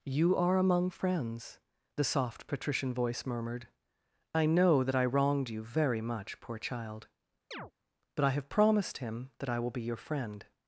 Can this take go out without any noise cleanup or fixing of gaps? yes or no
no